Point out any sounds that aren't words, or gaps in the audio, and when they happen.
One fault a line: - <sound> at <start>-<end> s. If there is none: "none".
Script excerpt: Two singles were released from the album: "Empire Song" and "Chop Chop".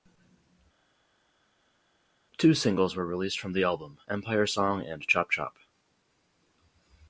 none